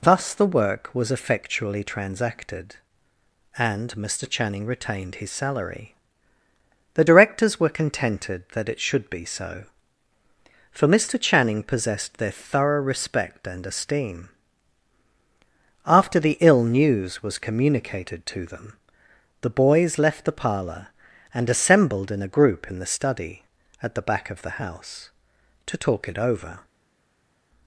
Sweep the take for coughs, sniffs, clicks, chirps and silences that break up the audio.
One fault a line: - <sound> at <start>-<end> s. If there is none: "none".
none